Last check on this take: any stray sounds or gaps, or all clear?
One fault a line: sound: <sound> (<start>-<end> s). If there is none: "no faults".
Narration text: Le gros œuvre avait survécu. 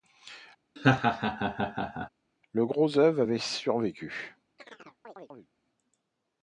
sound: laugh (0.8-2.1 s)
sound: chirp (4.6-5.5 s)